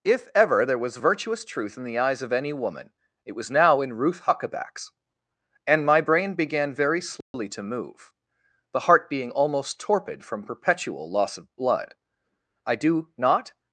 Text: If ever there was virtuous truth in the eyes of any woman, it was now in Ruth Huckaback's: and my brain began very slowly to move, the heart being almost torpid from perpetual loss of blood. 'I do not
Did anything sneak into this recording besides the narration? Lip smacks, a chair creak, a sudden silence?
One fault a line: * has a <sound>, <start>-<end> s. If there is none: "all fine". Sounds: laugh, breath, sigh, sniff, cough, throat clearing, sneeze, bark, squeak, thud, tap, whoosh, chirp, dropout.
* has a dropout, 7.2-7.3 s